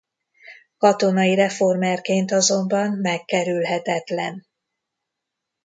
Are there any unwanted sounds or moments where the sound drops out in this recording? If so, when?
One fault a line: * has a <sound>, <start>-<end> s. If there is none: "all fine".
all fine